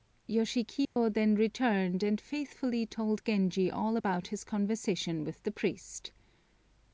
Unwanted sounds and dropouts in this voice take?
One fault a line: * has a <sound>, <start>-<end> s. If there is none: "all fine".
* has a dropout, 0.8-1.0 s